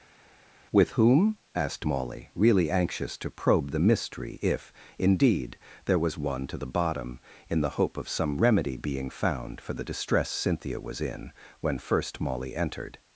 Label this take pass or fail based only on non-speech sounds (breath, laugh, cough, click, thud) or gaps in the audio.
pass